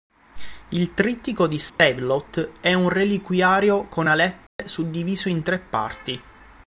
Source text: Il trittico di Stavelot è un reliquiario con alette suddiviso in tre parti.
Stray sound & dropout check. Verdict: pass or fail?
fail